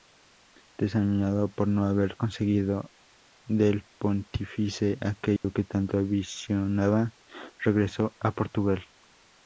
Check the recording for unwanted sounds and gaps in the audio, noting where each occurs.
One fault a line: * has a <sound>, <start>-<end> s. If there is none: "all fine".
* has a dropout, 5.4-5.4 s